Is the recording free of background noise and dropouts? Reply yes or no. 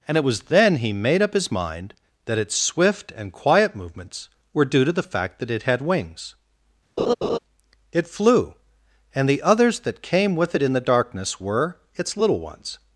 no